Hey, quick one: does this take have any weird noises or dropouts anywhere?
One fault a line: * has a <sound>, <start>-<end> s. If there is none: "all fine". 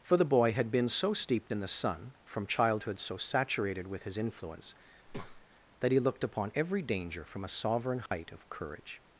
* has a breath, 5.1-5.5 s
* has a dropout, 8.1-8.1 s